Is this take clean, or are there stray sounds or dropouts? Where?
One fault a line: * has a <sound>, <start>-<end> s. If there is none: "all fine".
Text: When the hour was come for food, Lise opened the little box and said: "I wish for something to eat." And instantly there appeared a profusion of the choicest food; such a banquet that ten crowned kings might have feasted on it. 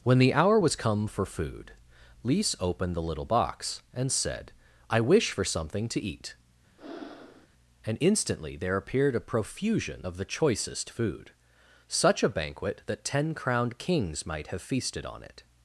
* has a breath, 6.8-7.5 s